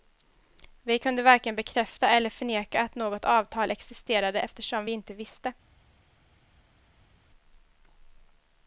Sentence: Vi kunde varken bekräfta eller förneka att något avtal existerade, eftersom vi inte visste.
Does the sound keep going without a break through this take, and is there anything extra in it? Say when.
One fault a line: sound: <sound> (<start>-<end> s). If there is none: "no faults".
no faults